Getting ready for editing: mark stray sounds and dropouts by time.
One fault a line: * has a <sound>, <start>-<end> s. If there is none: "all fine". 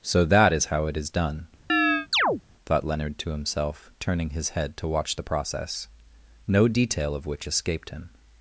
* has a chirp, 1.7-2.4 s